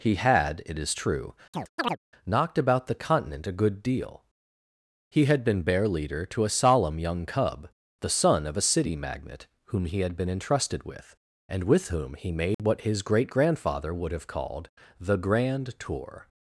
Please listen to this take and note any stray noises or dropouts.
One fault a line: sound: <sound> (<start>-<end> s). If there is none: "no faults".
sound: chirp (1.5-2.0 s)
sound: dropout (12.5-12.6 s)